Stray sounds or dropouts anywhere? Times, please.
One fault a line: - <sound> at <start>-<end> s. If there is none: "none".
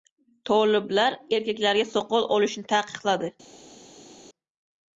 none